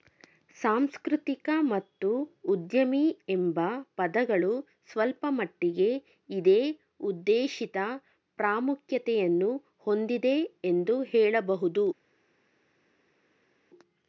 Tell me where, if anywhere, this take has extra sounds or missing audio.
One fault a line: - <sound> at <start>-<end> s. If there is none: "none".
none